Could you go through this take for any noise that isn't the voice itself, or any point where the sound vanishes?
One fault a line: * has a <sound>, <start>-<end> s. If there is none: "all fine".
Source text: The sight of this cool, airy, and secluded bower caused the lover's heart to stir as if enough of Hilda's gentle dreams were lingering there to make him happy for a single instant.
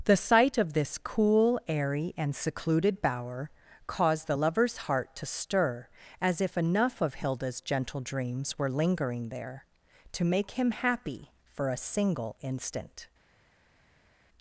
all fine